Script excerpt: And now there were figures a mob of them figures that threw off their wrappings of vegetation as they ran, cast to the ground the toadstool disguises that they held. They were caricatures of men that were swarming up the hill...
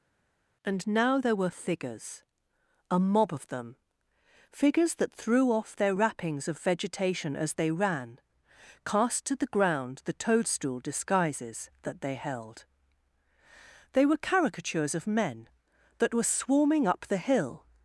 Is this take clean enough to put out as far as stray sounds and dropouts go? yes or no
yes